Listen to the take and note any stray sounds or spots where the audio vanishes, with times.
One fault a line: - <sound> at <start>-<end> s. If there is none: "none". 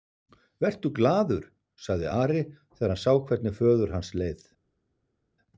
none